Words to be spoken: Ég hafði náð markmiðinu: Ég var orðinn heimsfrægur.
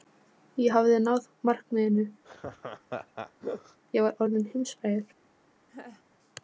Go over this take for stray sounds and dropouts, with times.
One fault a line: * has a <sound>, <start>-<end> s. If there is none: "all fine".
* has a laugh, 2.2-3.8 s
* has a laugh, 5.7-6.0 s